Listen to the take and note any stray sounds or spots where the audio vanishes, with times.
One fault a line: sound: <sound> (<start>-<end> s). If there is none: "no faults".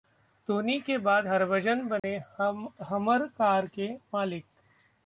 sound: dropout (2.0-2.0 s)